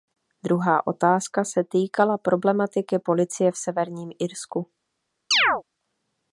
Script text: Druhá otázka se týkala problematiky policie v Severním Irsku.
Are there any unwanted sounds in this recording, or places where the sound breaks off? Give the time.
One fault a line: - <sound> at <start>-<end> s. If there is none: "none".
- chirp at 5.3-5.6 s